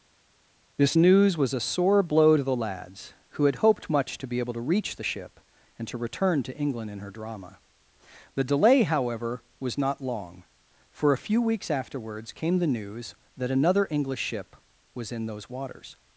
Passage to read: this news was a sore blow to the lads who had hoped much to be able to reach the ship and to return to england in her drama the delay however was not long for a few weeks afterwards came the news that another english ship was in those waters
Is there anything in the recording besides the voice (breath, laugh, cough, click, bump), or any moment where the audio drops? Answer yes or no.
no